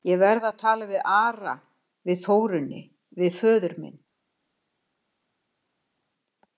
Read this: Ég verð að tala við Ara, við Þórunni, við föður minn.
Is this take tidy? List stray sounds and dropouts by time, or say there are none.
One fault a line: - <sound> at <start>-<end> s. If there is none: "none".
none